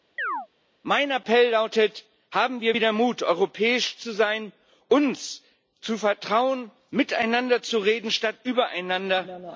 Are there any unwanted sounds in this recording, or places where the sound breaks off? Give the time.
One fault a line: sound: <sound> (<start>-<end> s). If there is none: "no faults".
sound: chirp (0.2-0.5 s)